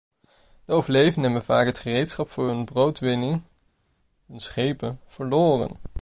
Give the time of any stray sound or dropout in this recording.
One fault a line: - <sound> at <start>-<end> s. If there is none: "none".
none